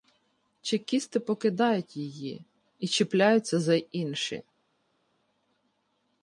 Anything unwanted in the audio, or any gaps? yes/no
no